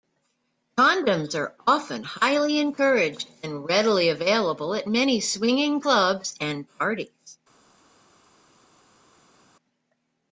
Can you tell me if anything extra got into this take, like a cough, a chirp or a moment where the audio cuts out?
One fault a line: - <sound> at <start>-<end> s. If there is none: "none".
none